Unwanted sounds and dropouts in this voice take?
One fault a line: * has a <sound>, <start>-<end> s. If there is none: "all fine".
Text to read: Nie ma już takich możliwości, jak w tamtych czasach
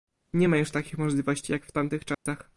* has a dropout, 2.1-2.3 s